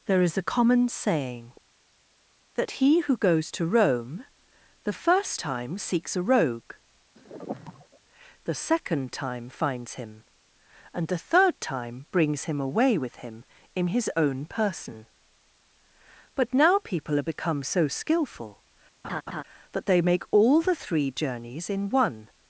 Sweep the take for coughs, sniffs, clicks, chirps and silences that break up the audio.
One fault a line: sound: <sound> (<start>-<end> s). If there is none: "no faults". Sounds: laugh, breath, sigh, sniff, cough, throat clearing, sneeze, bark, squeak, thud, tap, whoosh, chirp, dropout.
sound: sigh (7.2-8.0 s)
sound: laugh (19.0-19.4 s)